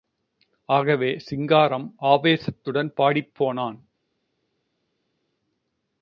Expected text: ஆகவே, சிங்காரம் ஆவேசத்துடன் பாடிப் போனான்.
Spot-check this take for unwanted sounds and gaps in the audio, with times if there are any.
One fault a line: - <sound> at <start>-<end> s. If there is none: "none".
none